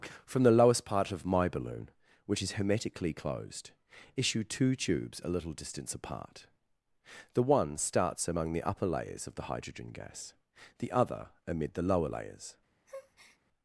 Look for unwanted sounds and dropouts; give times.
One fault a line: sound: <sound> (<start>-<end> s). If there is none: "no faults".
sound: breath (12.9-13.4 s)